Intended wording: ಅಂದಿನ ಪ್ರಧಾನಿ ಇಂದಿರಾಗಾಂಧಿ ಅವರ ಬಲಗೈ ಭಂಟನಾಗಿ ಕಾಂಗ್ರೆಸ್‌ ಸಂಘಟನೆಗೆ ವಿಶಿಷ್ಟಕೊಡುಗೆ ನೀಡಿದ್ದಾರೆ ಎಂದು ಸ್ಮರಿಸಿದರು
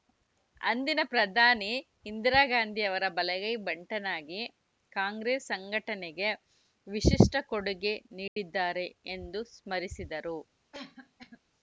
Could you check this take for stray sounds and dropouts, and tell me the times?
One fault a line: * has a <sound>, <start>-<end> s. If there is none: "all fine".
* has a dropout, 8.3-8.4 s
* has a cough, 10.7-11.4 s